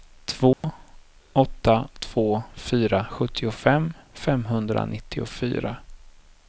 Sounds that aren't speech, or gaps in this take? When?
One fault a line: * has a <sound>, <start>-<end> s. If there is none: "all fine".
* has a dropout, 0.5-0.6 s